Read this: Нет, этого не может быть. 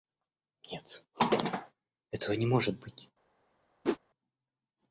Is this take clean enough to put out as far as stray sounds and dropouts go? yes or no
no